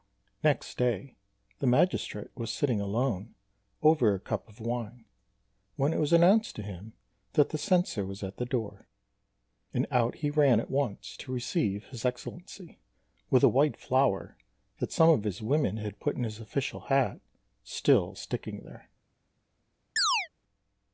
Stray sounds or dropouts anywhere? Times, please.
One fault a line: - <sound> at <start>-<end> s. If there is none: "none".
- chirp at 20.0-20.3 s